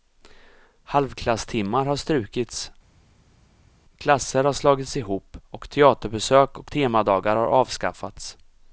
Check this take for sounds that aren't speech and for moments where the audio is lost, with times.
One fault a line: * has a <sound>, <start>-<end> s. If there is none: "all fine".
all fine